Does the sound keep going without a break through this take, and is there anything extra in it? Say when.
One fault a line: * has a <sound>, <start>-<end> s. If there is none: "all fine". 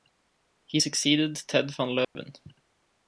* has a dropout, 2.0-2.2 s